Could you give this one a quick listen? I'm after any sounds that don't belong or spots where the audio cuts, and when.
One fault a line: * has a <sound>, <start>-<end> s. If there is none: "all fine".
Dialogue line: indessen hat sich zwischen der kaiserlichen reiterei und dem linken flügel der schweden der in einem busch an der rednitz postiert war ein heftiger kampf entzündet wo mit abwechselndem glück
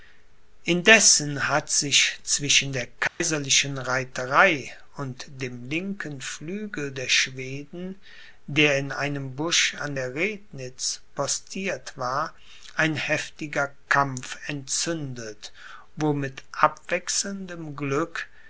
* has a dropout, 3.1-3.2 s